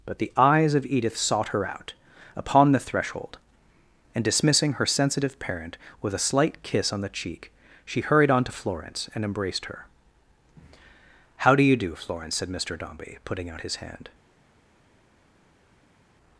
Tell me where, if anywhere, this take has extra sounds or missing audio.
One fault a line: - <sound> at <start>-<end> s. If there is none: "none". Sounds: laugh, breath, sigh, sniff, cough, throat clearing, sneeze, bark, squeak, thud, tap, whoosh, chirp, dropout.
none